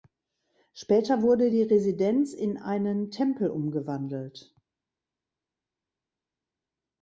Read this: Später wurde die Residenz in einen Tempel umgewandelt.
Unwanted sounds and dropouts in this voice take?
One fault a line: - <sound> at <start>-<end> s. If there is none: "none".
none